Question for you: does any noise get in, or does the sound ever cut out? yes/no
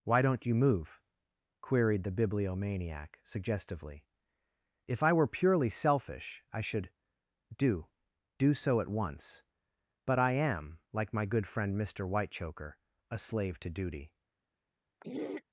yes